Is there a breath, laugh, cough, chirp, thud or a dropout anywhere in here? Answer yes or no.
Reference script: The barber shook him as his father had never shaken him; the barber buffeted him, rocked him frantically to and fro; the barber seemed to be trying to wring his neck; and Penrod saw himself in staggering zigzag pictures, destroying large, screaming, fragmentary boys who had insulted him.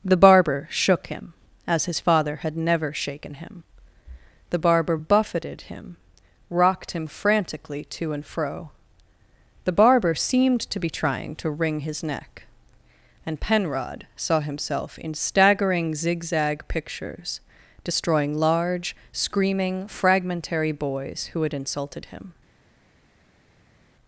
no